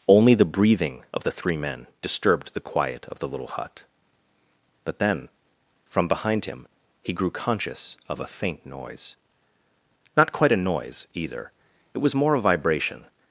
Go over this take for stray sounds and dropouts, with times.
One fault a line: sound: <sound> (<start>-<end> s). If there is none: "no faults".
no faults